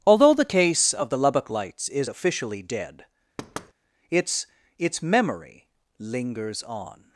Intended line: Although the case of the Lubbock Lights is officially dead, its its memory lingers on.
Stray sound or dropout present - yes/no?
yes